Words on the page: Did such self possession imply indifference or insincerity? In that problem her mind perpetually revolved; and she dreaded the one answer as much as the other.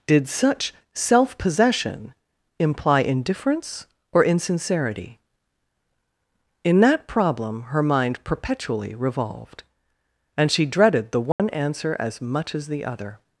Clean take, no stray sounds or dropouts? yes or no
no